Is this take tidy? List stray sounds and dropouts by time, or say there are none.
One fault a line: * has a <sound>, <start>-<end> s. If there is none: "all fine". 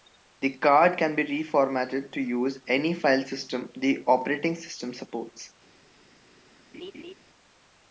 * has a laugh, 6.7-7.1 s